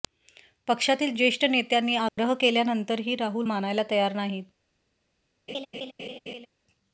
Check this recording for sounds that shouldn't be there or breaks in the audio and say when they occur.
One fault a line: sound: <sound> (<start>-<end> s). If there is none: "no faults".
sound: dropout (2.1-2.2 s)
sound: laugh (5.5-6.5 s)